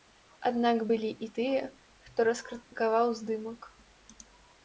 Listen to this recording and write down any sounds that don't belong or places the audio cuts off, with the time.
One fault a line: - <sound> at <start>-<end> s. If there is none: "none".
- dropout at 2.6-2.7 s